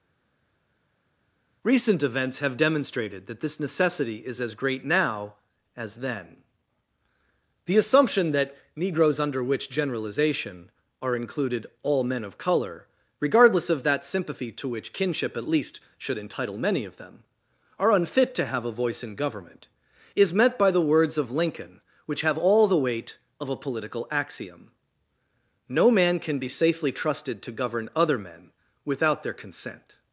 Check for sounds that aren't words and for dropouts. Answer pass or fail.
pass